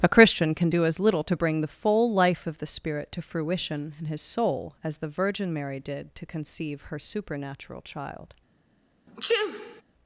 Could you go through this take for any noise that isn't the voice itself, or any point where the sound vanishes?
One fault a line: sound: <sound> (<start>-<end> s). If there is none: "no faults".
sound: sneeze (9.1-9.8 s)